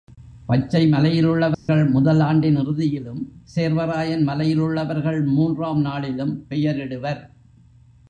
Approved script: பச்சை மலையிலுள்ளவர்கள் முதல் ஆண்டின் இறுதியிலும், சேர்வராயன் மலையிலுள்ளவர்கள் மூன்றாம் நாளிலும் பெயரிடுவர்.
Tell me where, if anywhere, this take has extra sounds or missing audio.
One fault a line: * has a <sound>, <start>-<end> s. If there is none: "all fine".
* has a dropout, 1.5-1.7 s